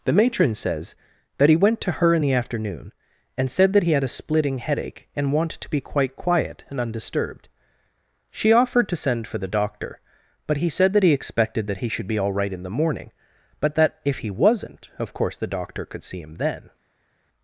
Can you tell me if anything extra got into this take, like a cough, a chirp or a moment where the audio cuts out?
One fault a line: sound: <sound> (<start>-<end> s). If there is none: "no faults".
no faults